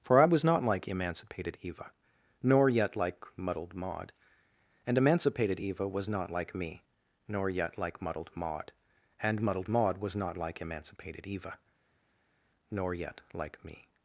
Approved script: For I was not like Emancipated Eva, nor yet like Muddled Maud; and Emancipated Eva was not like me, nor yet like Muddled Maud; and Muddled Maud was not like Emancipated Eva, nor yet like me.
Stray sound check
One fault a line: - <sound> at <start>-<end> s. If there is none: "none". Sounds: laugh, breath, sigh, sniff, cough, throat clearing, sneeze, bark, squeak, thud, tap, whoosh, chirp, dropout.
none